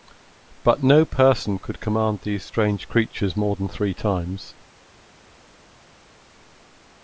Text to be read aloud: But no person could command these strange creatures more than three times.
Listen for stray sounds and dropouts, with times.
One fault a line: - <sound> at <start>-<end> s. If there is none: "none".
none